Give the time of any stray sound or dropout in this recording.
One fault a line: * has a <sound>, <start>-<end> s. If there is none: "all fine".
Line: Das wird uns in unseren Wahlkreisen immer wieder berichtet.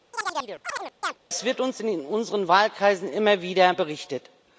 * has a chirp, 0.1-1.2 s